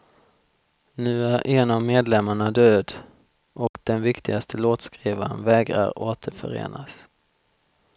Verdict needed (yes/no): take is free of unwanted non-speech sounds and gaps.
no